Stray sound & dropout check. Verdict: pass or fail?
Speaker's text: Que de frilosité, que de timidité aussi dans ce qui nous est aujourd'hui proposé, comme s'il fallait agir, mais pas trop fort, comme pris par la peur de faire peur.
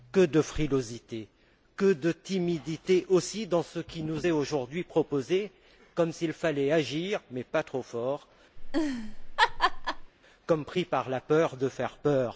fail